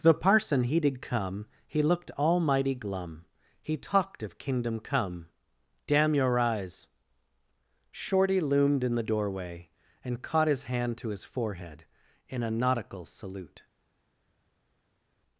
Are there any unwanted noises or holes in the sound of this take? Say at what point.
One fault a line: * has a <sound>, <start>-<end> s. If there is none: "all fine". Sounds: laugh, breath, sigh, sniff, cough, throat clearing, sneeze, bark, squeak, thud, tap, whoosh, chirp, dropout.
all fine